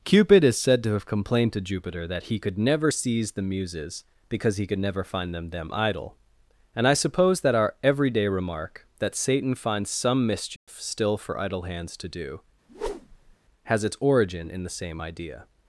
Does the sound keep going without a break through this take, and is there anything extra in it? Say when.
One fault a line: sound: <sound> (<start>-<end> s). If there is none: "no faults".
sound: dropout (10.6-10.7 s)
sound: whoosh (12.7-13.4 s)